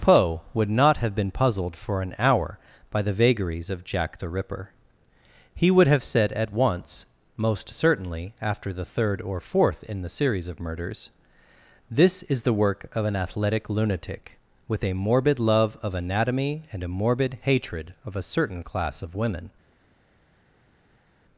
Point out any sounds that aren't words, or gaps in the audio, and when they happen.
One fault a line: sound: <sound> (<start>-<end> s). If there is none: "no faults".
no faults